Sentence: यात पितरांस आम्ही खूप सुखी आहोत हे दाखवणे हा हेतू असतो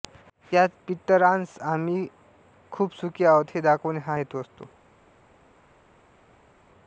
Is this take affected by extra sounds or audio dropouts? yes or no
no